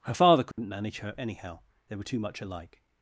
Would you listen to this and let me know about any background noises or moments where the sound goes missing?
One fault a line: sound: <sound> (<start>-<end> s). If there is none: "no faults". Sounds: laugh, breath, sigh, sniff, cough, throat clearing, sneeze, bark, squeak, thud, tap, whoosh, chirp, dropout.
sound: dropout (0.5-0.6 s)